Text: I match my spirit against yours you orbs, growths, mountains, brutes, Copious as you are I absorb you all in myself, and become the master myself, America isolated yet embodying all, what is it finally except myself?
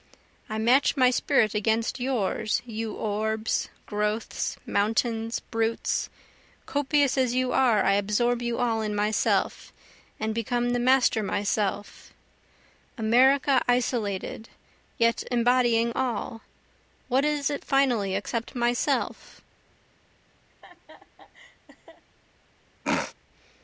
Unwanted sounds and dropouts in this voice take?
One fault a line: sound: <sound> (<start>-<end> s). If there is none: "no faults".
sound: laugh (20.5-22.0 s)
sound: throat clearing (22.8-23.1 s)